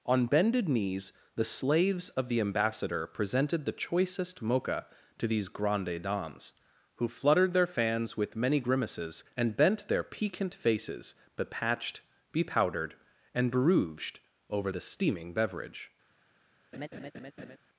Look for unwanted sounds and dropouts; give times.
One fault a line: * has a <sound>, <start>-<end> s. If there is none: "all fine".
* has a laugh, 16.7-17.6 s